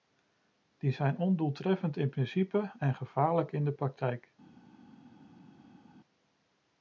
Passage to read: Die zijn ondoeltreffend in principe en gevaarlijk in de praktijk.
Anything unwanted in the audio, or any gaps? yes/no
no